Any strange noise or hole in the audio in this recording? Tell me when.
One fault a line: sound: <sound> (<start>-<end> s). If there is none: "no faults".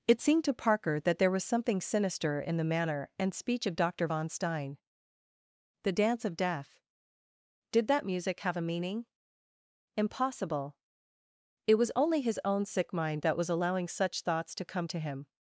no faults